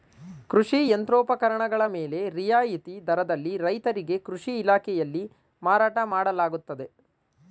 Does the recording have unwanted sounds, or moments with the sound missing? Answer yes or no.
no